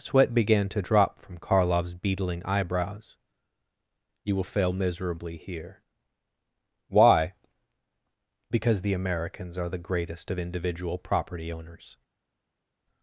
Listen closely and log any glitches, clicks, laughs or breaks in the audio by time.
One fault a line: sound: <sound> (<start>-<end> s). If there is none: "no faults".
no faults